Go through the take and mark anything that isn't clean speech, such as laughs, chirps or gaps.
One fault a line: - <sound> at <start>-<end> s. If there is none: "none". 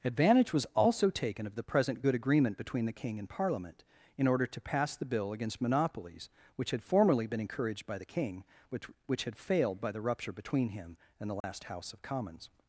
- dropout at 11.4-11.4 s